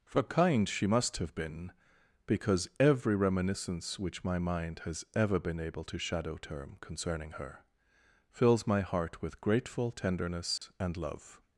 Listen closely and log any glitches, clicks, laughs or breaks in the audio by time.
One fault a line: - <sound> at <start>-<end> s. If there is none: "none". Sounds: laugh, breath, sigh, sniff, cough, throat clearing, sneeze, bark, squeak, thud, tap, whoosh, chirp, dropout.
- dropout at 10.6-10.6 s